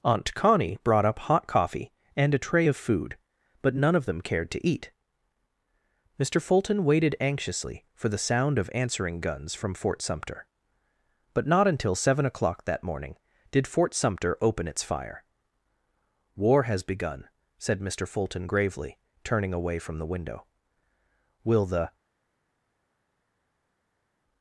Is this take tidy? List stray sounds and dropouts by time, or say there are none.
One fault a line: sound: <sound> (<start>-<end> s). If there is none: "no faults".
no faults